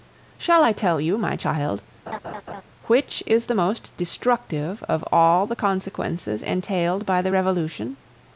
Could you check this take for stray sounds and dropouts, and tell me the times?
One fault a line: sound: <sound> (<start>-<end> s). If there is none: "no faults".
sound: laugh (2.1-2.6 s)